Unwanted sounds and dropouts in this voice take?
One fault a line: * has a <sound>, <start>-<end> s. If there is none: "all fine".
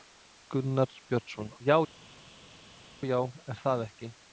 all fine